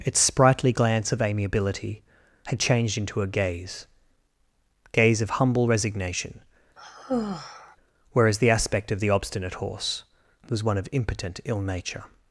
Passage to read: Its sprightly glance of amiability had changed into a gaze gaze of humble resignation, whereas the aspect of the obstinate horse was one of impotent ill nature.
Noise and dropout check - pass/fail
fail